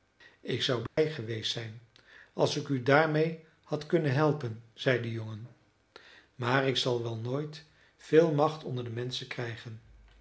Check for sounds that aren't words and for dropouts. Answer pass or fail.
fail